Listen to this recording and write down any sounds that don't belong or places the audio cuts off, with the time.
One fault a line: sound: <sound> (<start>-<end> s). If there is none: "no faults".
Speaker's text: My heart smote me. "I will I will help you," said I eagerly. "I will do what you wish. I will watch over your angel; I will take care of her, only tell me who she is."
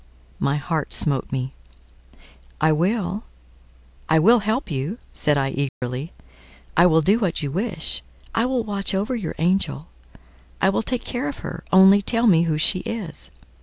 sound: dropout (5.7-5.8 s)